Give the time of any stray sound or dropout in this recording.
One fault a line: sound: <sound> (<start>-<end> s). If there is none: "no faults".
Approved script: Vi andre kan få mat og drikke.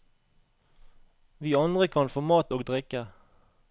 no faults